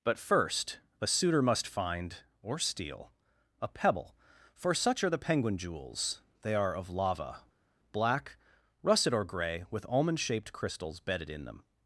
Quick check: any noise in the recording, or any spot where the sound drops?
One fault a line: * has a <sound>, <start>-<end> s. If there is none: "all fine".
all fine